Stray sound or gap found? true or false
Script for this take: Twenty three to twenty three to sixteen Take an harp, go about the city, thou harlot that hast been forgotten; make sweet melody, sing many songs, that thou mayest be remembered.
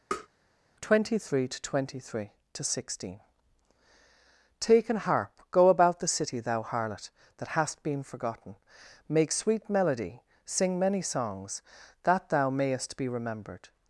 true